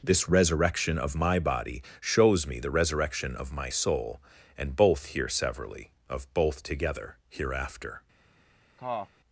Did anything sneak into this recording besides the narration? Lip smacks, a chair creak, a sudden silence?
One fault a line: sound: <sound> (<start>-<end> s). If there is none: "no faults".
sound: cough (8.8-9.1 s)